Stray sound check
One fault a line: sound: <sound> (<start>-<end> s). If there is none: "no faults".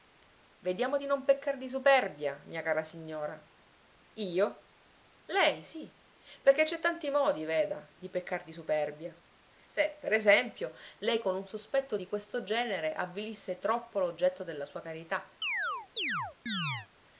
sound: chirp (15.4-16.9 s)